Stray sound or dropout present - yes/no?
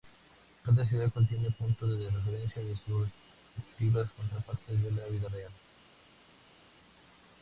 no